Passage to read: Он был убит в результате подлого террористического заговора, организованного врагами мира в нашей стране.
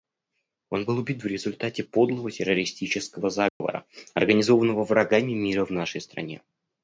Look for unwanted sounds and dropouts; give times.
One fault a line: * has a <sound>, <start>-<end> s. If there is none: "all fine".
* has a dropout, 3.5-3.6 s